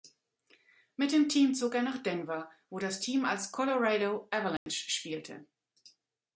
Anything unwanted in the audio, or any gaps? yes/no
yes